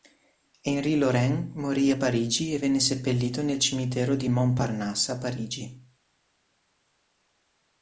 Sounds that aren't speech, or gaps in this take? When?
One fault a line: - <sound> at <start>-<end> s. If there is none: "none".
none